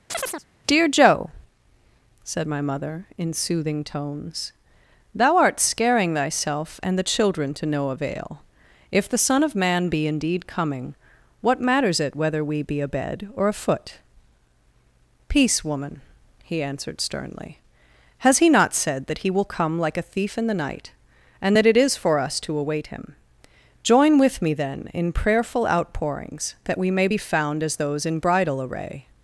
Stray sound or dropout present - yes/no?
yes